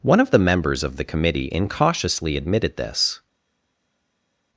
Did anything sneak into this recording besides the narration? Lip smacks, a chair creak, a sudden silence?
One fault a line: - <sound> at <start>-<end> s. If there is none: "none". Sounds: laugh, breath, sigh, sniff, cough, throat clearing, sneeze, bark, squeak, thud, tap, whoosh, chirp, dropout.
none